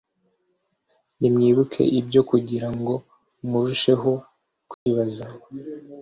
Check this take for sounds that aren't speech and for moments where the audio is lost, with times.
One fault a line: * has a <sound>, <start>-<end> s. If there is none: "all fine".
* has a dropout, 4.7-4.9 s